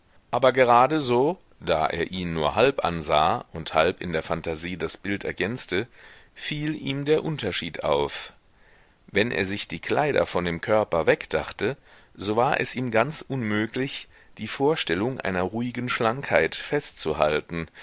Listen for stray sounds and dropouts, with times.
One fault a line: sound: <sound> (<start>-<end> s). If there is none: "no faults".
no faults